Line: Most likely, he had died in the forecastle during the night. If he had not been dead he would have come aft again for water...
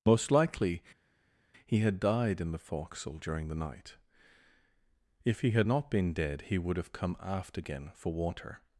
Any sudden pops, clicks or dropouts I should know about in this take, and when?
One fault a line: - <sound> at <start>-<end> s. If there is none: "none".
none